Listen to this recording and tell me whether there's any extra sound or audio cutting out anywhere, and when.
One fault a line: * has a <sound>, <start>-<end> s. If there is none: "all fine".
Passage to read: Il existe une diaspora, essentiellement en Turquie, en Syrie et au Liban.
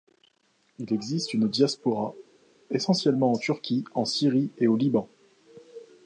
all fine